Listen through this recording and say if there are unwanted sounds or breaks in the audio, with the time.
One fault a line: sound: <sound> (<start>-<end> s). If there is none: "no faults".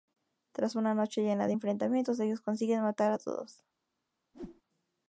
sound: whoosh (4.3-4.6 s)